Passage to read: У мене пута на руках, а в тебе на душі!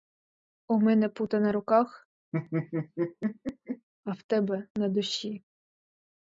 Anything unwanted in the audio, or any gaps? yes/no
yes